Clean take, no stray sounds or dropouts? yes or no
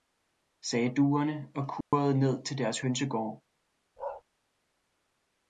no